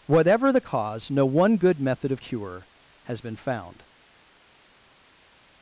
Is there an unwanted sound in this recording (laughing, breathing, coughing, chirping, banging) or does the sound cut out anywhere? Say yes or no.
no